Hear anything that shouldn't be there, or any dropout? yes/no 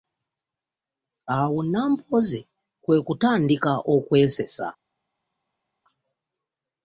no